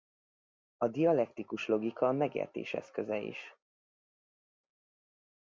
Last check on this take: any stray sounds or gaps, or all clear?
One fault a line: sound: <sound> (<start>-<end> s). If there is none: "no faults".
no faults